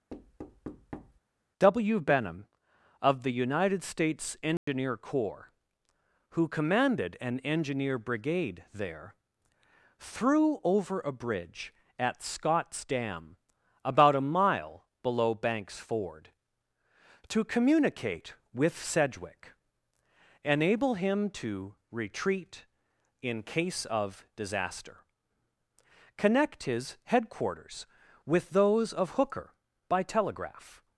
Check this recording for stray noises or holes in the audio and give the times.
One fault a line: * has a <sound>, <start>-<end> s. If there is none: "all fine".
* has a thud, 0.1-1.2 s
* has a dropout, 4.6-4.7 s